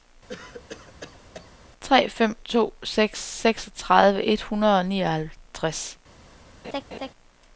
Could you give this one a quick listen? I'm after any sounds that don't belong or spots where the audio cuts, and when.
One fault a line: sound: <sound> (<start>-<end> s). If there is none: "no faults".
sound: cough (0.3-1.5 s)
sound: laugh (6.6-7.1 s)